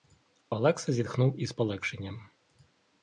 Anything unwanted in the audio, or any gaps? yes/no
no